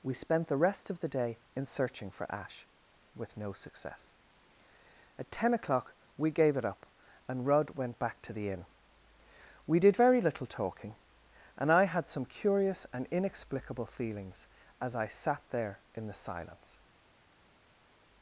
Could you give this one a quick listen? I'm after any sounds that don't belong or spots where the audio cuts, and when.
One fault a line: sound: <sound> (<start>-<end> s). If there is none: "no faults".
no faults